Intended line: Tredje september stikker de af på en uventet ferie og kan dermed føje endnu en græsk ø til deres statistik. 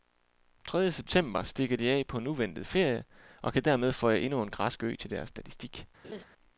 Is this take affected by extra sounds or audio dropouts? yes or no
yes